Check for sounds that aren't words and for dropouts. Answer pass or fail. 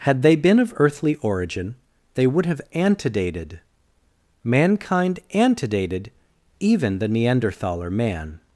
pass